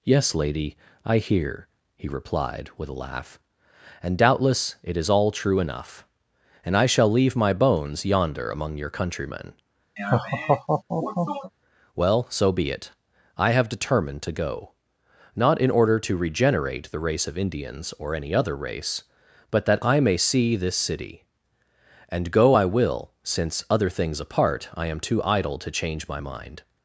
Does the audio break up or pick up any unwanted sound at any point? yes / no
yes